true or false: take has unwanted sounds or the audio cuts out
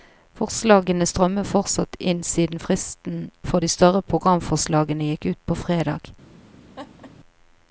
true